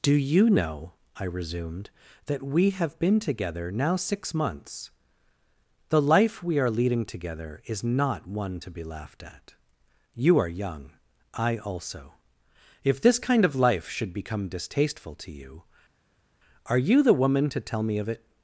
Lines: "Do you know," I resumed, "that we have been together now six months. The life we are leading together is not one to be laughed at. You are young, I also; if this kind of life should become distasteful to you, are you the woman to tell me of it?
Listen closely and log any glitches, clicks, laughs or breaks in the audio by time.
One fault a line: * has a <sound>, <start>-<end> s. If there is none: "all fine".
all fine